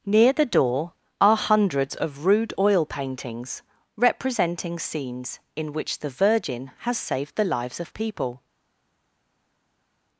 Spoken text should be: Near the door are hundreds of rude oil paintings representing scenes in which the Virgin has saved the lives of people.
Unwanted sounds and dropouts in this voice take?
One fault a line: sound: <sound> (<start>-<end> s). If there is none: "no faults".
no faults